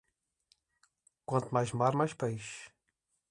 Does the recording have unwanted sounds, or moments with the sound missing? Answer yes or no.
no